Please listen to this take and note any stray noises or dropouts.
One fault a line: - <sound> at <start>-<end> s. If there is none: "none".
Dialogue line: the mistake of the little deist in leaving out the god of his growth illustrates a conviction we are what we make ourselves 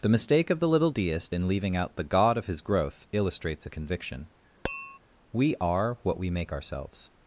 - tap at 4.6-5.0 s